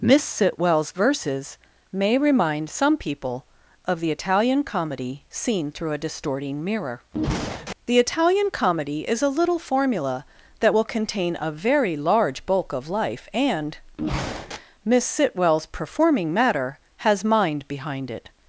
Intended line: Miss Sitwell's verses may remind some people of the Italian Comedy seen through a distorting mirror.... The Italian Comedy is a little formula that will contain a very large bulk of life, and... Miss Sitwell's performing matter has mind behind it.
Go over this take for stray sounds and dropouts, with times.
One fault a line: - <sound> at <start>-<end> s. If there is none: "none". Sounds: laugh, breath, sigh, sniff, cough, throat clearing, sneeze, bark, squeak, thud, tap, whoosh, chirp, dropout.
none